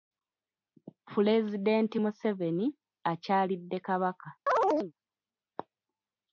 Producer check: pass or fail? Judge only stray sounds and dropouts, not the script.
fail